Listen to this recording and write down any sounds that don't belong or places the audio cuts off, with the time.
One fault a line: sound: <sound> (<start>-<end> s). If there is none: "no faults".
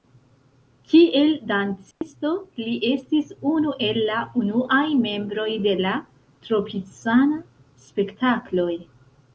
sound: dropout (1.9-2.0 s)